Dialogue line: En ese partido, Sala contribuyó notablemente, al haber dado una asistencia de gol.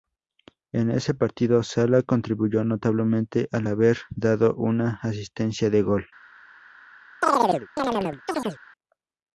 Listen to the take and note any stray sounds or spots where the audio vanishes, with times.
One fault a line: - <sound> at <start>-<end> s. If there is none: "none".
- chirp at 7.2-8.6 s